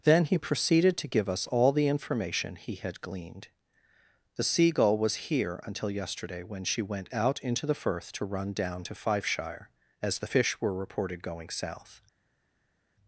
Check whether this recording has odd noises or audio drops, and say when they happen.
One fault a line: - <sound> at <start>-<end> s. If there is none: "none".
none